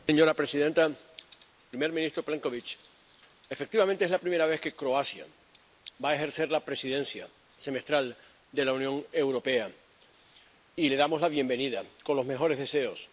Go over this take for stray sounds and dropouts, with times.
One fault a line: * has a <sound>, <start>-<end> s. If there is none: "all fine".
all fine